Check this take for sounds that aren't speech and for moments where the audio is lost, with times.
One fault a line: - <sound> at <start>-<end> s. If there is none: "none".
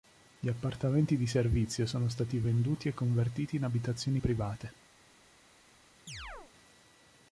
- chirp at 6.1-6.5 s